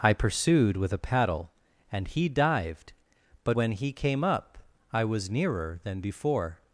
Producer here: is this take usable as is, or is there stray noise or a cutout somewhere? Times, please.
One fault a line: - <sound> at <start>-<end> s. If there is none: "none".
none